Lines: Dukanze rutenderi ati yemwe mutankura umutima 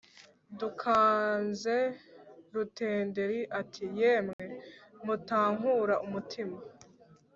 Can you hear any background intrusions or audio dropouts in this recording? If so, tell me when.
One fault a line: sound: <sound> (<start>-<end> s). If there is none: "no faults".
sound: dropout (4.3-4.4 s)